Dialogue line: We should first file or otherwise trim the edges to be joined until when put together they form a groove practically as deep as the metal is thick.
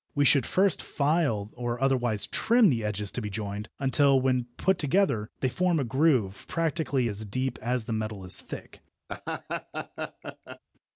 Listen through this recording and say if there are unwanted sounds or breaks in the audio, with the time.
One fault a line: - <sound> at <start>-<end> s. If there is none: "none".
- laugh at 9.1-10.6 s